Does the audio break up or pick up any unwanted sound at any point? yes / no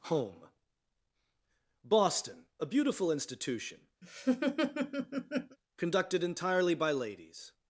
yes